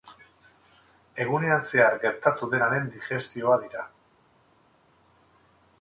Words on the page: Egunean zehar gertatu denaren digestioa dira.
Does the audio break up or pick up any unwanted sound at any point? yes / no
no